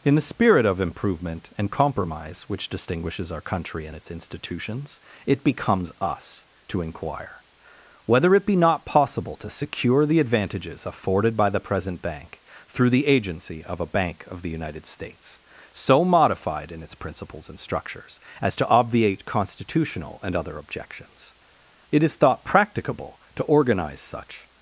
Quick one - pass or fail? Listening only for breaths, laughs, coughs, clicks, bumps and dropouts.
pass